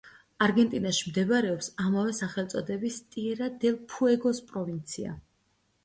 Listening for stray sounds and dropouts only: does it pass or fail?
pass